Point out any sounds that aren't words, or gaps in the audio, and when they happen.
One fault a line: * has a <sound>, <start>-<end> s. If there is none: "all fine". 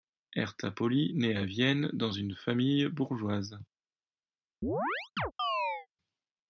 * has a chirp, 4.6-5.9 s